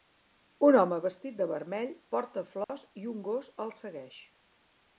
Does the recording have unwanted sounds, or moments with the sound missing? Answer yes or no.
yes